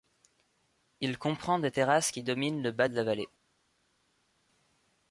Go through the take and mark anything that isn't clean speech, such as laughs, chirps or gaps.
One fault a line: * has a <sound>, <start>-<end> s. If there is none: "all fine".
all fine